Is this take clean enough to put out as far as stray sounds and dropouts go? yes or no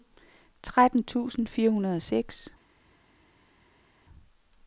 yes